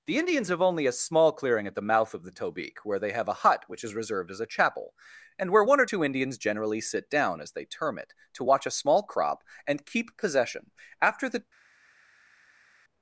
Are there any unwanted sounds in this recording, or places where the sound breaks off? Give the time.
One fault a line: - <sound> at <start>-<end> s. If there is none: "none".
none